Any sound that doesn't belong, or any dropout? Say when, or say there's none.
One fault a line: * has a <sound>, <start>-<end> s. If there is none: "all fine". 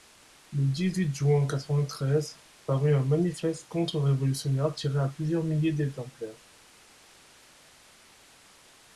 all fine